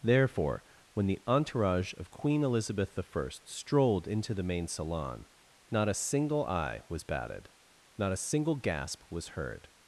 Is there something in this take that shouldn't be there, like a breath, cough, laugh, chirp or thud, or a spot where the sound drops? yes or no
no